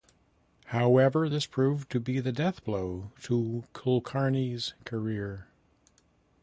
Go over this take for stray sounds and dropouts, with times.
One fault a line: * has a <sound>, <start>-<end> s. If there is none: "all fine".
all fine